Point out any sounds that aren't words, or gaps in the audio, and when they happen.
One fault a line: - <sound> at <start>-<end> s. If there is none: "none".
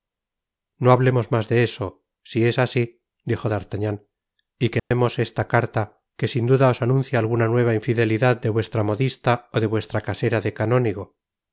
- dropout at 4.8-4.9 s